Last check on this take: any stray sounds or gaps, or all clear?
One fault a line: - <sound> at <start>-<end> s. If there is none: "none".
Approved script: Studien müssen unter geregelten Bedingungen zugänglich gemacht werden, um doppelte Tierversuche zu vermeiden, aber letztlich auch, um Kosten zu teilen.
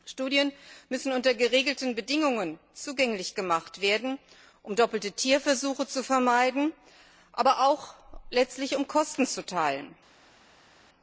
none